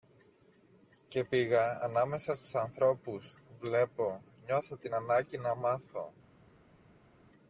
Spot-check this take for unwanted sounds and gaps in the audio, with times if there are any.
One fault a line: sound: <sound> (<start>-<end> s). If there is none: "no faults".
no faults